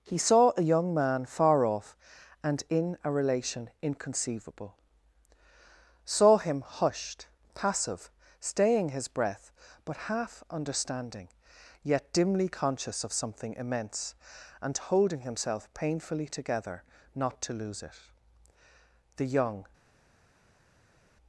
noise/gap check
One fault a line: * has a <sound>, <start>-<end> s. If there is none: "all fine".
all fine